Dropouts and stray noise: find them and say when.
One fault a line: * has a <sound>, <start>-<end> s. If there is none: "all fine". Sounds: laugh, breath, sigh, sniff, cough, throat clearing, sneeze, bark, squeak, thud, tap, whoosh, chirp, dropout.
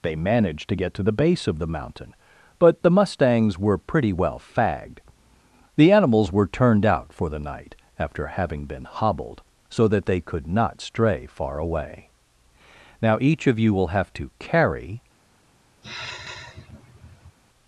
* has a sigh, 15.8-17.4 s